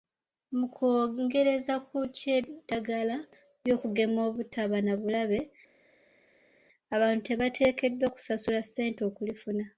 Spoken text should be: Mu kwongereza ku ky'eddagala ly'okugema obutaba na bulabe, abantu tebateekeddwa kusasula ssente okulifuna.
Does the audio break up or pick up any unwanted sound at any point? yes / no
no